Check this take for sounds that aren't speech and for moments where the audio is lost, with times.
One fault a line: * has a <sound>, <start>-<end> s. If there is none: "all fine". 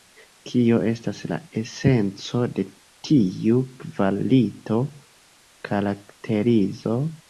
all fine